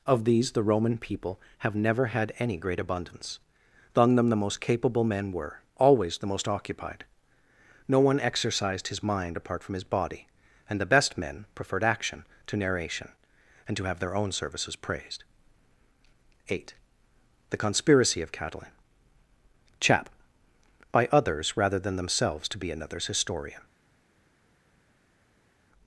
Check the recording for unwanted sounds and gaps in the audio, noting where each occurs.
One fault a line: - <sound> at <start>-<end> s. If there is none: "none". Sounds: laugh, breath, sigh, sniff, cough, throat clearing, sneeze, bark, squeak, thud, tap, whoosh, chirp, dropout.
none